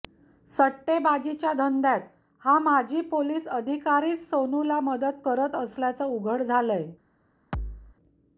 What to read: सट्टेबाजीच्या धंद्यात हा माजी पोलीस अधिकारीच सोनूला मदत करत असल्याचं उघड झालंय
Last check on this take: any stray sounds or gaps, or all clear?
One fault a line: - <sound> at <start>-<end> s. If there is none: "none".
- thud at 7.5-8.0 s